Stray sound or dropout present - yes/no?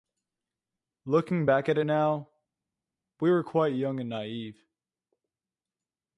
no